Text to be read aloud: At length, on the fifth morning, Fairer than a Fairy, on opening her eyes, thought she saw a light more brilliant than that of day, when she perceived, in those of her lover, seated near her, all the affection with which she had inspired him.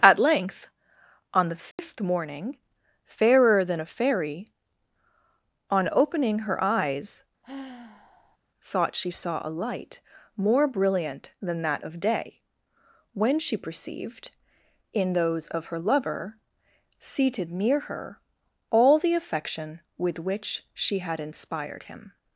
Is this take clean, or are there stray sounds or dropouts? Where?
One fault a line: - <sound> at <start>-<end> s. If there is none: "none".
- dropout at 1.7-1.8 s
- sigh at 7.4-8.4 s